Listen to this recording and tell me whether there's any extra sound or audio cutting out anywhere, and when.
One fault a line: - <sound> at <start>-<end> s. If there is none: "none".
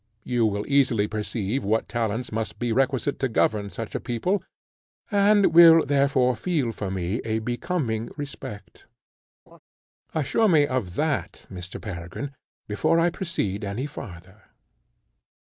- laugh at 9.5-9.6 s